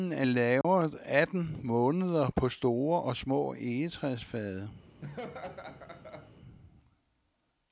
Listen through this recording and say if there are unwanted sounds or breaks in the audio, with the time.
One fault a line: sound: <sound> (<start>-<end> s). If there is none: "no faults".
sound: dropout (0.6-0.6 s)
sound: laugh (5.0-6.3 s)